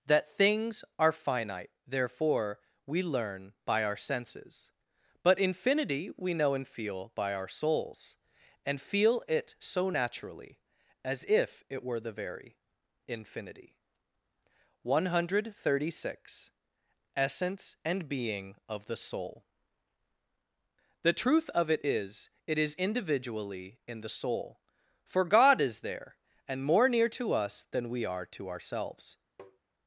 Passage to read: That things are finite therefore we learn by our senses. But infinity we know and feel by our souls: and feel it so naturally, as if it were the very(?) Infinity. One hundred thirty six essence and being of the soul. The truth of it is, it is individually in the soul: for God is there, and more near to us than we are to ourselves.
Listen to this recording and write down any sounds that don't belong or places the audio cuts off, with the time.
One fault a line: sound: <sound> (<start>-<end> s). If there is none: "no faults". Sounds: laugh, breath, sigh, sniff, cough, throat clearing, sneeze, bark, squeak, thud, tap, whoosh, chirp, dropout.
sound: tap (29.4-29.6 s)